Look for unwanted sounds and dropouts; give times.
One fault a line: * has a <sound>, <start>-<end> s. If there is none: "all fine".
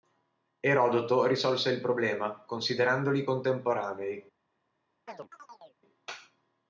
* has a chirp, 5.1-5.8 s